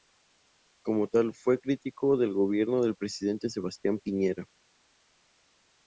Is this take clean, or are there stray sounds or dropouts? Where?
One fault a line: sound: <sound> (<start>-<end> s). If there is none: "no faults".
no faults